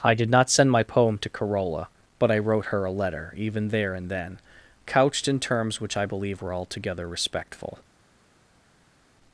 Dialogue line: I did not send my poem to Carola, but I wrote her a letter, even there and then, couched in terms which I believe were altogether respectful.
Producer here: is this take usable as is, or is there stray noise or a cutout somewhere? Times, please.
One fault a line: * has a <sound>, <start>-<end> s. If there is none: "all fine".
all fine